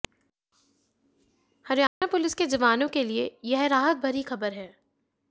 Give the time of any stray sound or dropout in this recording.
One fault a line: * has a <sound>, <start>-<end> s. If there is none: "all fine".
* has a dropout, 1.9-2.0 s